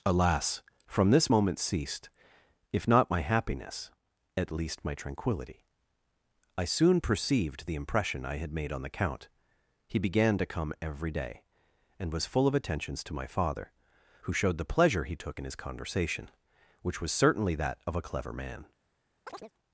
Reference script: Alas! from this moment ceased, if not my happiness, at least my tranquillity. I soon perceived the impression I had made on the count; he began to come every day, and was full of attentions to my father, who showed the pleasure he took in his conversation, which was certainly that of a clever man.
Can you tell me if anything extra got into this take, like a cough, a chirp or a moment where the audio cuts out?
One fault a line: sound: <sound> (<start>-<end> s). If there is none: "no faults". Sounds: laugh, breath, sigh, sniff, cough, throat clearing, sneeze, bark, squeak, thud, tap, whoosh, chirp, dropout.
sound: chirp (19.3-19.5 s)